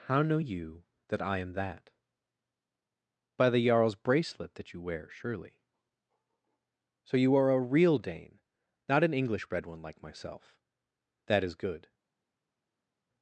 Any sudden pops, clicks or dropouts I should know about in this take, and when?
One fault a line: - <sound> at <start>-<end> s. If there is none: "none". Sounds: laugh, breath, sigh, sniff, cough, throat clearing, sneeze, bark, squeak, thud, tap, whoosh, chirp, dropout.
none